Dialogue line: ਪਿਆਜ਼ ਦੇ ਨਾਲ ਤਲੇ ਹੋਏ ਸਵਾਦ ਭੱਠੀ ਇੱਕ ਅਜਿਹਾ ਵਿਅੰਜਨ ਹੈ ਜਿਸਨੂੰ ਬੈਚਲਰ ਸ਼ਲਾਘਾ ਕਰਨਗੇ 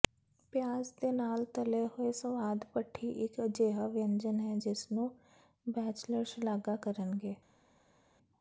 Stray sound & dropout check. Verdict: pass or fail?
pass